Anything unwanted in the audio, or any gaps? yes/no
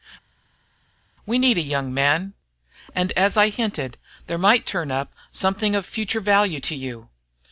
no